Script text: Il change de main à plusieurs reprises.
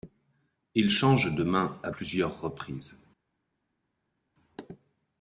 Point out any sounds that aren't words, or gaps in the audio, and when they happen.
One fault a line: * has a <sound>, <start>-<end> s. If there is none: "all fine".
all fine